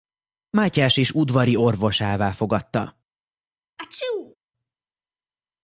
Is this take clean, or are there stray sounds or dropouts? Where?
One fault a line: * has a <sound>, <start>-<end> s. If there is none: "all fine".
* has a sneeze, 3.8-4.4 s